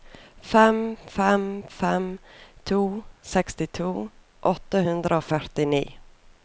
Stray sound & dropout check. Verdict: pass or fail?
pass